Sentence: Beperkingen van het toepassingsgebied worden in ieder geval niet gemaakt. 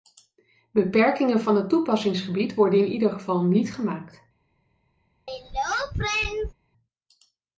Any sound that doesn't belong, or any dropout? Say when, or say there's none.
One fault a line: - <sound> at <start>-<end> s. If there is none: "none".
- throat clearing at 5.3-6.5 s